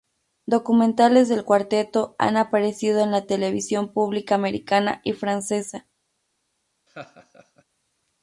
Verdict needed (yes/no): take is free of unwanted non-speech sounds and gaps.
no